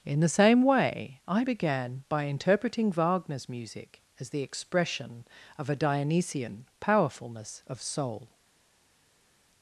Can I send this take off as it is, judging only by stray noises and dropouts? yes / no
yes